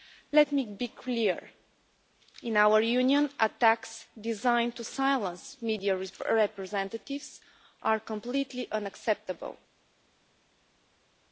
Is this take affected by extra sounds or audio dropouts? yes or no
no